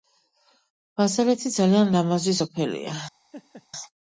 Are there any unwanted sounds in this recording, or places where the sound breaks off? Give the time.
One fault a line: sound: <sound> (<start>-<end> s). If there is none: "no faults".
sound: laugh (3.3-3.7 s)